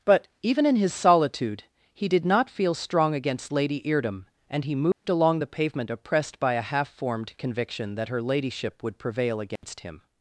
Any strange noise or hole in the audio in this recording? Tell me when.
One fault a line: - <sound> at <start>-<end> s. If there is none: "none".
- dropout at 4.9-5.0 s
- dropout at 9.6-9.6 s